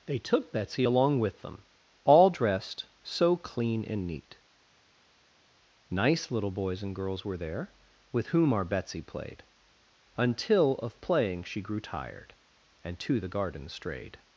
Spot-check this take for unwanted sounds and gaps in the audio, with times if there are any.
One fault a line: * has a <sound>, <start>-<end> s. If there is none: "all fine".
all fine